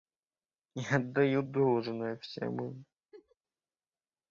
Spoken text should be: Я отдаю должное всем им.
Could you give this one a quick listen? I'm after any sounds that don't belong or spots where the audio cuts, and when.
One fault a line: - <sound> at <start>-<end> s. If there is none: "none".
- laugh at 3.1-3.4 s